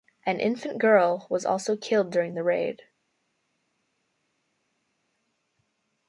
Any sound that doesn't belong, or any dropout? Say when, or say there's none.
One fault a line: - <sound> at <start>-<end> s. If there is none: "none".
none